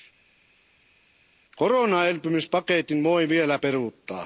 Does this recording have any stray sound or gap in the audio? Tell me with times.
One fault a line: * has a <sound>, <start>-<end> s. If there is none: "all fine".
all fine